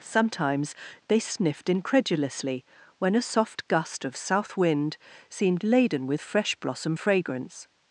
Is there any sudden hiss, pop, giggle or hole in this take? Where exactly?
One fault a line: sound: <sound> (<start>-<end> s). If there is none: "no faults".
no faults